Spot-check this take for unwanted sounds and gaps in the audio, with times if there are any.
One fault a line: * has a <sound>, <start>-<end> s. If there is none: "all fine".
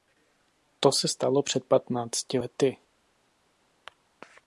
all fine